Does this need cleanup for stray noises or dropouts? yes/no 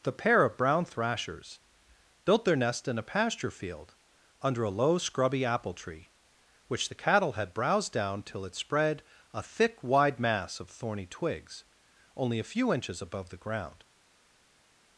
no